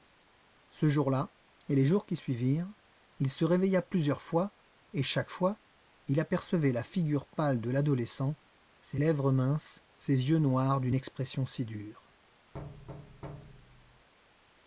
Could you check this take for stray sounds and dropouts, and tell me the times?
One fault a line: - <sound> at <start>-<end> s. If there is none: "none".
- thud at 12.5-14.1 s